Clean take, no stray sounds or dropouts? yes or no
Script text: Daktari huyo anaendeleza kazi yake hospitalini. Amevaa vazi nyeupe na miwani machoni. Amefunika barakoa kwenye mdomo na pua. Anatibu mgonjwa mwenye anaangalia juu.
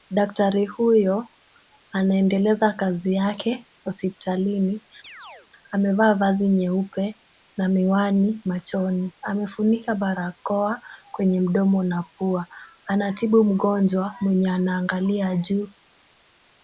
no